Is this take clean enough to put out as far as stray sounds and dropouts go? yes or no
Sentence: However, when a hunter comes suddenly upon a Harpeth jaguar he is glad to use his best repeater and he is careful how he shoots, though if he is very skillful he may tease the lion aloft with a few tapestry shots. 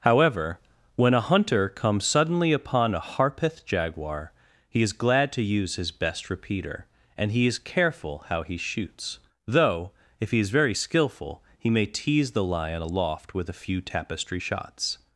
yes